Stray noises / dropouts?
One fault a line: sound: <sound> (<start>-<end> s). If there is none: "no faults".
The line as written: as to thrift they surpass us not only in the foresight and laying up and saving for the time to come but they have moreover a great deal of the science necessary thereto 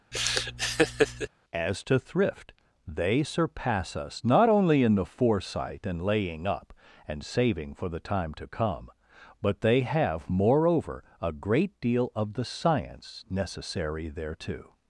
sound: laugh (0.1-1.3 s)